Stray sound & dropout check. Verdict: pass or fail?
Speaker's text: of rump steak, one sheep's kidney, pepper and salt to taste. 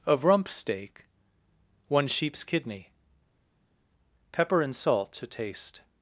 pass